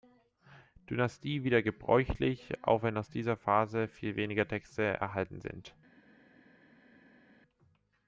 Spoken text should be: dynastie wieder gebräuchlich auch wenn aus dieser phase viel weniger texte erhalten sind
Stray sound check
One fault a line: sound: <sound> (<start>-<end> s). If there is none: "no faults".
no faults